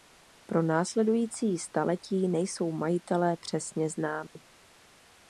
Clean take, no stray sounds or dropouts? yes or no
no